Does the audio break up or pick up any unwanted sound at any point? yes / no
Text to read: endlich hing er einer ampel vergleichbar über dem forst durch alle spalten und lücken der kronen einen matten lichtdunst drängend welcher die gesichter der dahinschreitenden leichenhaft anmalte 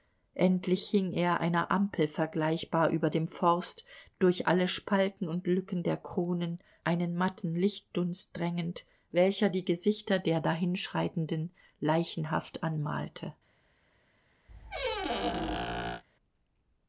yes